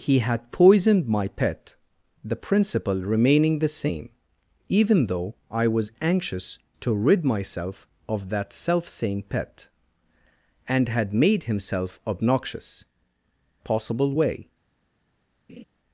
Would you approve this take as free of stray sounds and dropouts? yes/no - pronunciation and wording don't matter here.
no